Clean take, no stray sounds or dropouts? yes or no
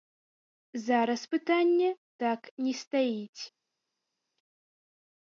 yes